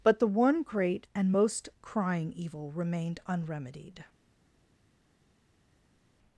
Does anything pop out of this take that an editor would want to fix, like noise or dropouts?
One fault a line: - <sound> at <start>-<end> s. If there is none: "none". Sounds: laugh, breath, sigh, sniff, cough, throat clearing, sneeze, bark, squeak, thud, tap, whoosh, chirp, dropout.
none